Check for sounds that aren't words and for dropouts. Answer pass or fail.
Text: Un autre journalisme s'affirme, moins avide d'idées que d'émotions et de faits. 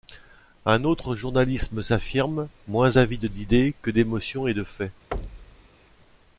fail